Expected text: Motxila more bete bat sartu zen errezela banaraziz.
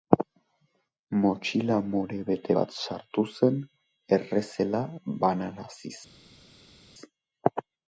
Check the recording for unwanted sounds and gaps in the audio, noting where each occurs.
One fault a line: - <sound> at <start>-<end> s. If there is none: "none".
none